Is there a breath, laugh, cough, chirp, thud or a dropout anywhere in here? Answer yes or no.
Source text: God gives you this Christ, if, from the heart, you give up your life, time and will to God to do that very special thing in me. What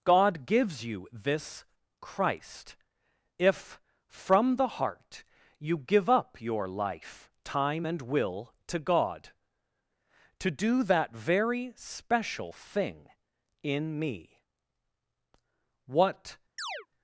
yes